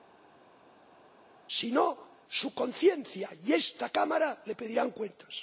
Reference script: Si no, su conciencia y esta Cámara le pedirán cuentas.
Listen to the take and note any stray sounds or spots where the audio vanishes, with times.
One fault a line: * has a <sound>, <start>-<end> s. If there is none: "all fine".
all fine